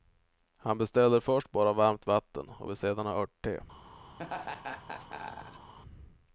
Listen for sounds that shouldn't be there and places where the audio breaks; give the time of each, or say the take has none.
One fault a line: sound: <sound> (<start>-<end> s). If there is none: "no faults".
sound: laugh (4.2-5.7 s)